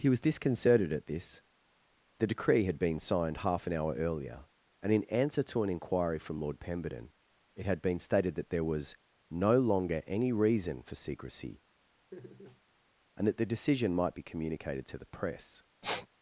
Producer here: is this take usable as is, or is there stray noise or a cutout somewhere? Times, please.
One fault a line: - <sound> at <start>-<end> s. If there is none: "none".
- laugh at 12.1-12.6 s
- sniff at 15.8-16.1 s